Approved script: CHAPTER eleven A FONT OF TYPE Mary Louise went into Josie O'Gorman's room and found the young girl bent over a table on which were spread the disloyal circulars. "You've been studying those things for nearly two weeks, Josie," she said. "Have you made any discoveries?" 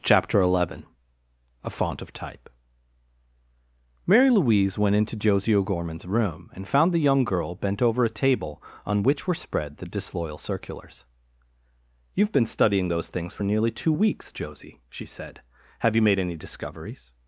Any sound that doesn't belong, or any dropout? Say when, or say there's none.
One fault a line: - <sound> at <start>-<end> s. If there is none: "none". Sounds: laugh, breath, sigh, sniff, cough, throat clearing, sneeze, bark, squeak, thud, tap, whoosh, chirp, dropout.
none